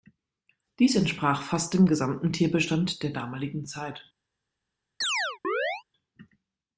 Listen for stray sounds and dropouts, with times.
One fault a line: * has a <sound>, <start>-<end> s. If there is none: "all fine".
* has a chirp, 5.0-5.8 s